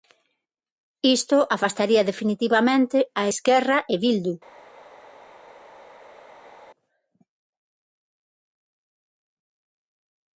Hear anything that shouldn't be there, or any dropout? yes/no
no